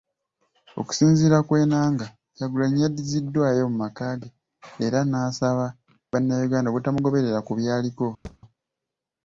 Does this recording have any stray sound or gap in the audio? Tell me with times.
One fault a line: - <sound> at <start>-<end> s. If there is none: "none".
- thud at 8.2-8.4 s